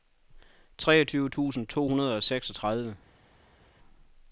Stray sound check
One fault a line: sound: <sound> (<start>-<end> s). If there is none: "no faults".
no faults